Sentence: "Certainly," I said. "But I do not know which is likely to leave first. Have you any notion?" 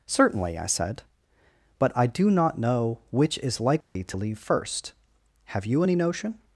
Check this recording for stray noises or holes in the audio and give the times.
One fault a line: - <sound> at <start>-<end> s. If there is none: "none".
- dropout at 3.8-4.0 s